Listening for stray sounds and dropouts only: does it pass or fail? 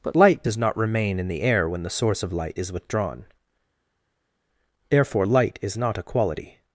pass